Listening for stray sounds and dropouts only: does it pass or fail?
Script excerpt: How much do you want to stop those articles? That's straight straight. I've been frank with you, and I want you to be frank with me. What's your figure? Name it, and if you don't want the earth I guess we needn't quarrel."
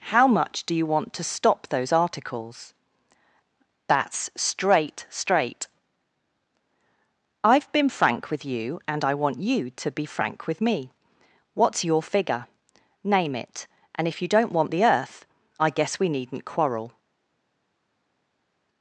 pass